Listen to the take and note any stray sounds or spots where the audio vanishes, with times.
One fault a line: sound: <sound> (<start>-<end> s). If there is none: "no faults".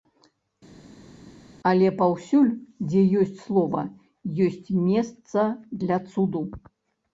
no faults